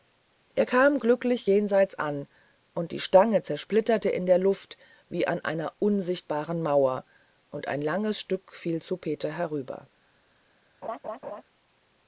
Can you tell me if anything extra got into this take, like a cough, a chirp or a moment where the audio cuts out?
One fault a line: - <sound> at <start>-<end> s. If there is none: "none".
- laugh at 10.8-11.4 s